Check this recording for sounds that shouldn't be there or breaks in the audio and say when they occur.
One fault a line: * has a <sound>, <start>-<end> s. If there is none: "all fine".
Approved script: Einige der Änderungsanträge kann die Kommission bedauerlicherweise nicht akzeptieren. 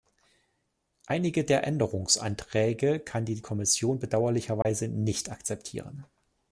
* has a dropout, 4.6-4.7 s